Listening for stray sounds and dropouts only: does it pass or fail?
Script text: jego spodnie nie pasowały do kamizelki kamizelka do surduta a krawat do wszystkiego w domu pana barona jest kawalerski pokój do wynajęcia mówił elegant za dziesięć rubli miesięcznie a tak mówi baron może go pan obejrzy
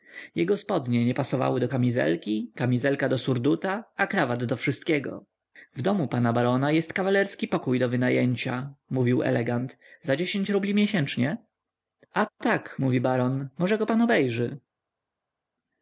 pass